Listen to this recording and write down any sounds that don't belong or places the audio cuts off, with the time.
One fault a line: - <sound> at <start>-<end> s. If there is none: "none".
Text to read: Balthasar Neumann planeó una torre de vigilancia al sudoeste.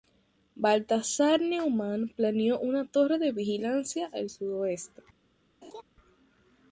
- laugh at 5.6-5.8 s